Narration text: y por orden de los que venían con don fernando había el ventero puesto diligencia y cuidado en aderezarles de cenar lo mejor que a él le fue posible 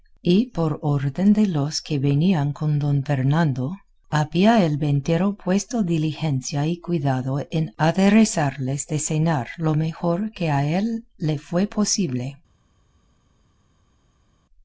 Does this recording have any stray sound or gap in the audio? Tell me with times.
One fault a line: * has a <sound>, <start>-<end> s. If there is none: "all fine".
all fine